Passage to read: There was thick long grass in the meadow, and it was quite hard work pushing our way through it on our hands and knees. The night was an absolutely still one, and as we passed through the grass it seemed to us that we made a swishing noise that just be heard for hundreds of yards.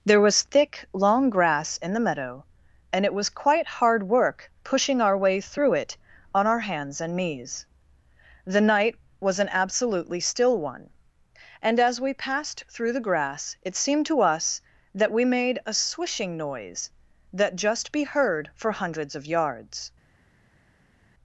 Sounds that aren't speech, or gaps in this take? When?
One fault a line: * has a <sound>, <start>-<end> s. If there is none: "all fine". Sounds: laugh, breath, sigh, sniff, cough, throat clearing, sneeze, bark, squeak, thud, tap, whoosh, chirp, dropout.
all fine